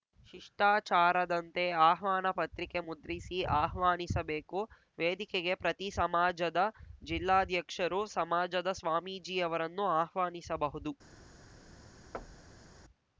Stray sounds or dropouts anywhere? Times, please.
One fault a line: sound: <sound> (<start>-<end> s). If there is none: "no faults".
sound: thud (12.1-12.7 s)